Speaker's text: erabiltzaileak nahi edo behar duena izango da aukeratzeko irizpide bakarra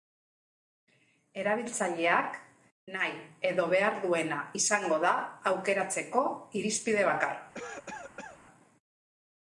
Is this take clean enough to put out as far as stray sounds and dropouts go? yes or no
no